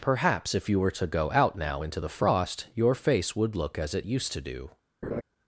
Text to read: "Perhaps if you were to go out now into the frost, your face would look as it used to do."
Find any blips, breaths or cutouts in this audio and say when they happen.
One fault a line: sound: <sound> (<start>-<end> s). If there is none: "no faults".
sound: laugh (5.0-5.2 s)